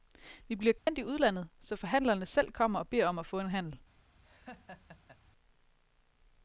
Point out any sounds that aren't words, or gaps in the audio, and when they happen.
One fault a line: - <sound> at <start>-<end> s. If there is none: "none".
- dropout at 0.8-0.9 s
- laugh at 4.2-5.2 s